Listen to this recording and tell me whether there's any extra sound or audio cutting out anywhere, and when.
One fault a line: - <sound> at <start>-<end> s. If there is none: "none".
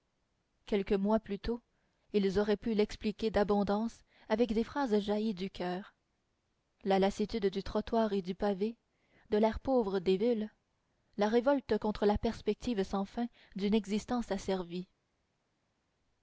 none